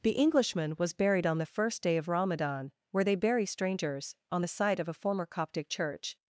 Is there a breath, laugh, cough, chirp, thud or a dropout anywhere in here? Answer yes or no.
no